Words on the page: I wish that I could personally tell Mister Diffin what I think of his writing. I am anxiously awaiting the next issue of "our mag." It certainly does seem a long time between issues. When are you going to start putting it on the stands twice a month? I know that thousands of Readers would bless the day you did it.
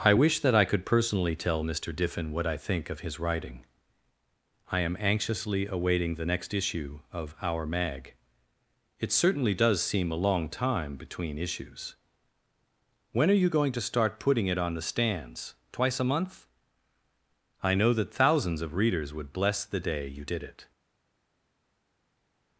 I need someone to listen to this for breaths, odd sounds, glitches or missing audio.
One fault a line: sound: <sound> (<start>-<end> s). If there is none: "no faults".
no faults